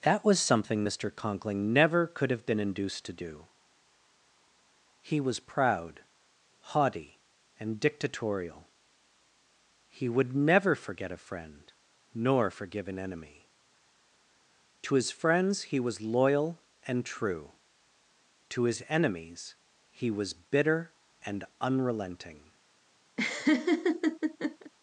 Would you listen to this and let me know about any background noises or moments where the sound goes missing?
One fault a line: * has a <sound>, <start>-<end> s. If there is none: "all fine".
* has a laugh, 23.2-24.7 s